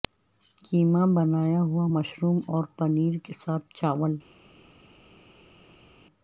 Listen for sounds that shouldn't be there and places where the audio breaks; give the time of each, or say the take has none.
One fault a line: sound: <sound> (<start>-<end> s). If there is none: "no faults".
no faults